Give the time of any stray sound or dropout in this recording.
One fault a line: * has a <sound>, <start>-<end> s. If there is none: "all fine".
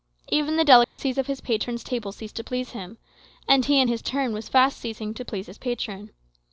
* has a dropout, 0.8-1.0 s